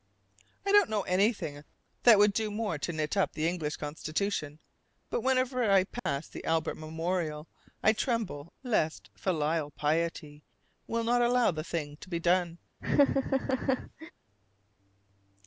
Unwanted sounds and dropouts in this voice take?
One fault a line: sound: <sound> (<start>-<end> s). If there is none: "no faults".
sound: dropout (6.0-6.1 s)
sound: laugh (12.8-14.1 s)